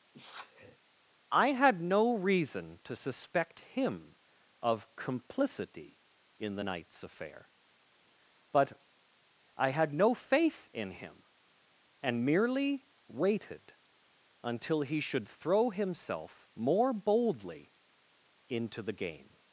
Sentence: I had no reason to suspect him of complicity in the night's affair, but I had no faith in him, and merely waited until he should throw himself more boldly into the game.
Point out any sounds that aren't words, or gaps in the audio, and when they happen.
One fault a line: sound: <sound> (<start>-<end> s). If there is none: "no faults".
sound: sneeze (0.1-0.8 s)